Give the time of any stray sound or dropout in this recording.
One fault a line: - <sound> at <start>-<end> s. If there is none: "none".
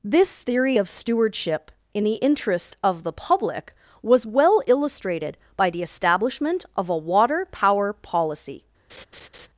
- laugh at 8.9-9.5 s